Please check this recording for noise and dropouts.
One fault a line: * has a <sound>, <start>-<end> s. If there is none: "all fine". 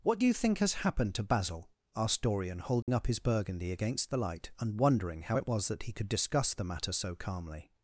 * has a dropout, 2.8-2.9 s